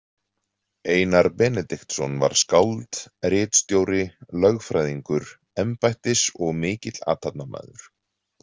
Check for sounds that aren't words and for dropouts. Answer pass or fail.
pass